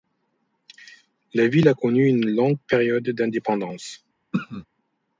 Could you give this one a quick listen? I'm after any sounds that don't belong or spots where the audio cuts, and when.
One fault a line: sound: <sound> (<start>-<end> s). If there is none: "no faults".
sound: throat clearing (4.3-4.7 s)